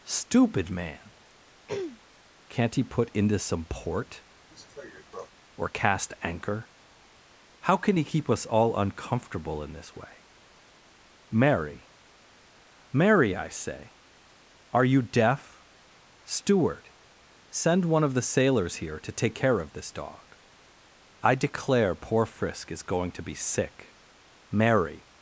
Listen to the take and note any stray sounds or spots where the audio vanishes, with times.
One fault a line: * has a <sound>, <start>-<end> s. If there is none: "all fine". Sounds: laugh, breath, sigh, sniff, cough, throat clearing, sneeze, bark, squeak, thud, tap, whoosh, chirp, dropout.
* has a throat clearing, 1.7-2.0 s
* has a cough, 4.5-5.3 s